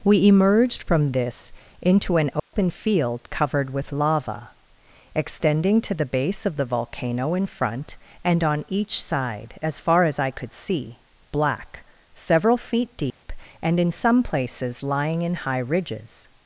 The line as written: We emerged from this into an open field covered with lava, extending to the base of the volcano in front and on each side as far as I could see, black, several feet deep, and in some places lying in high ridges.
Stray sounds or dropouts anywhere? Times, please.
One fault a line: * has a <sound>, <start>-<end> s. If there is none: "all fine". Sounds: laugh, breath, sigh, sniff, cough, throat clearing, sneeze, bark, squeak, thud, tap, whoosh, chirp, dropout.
* has a dropout, 2.4-2.5 s
* has a dropout, 13.1-13.2 s